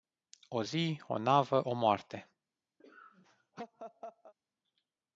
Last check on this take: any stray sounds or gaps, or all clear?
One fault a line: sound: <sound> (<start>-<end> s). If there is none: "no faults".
sound: laugh (2.8-4.3 s)